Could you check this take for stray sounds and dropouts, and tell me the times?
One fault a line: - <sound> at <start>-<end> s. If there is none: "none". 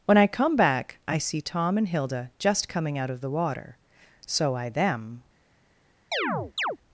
- chirp at 6.1-6.8 s